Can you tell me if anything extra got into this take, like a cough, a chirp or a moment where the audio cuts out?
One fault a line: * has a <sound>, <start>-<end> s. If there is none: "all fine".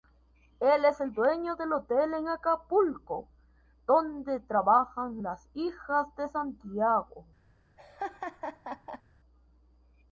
* has a laugh, 7.8-9.0 s